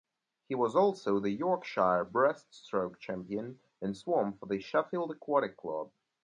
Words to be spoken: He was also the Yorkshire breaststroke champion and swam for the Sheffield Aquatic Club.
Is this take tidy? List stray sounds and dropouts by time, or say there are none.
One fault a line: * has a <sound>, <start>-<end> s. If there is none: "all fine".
all fine